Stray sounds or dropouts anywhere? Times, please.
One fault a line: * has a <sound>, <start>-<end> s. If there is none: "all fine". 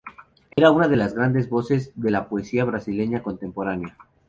* has a dropout, 0.5-0.6 s